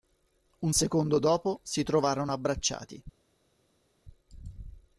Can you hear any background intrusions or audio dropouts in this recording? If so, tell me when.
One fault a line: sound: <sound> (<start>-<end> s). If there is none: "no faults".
no faults